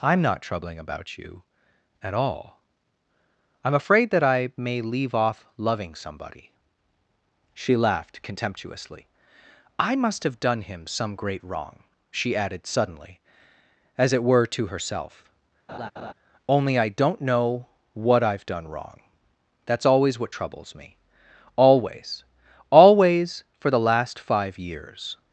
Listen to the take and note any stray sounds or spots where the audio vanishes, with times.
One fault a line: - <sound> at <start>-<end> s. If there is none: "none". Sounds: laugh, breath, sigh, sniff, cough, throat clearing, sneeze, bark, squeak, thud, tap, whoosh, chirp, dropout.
- laugh at 15.7-16.1 s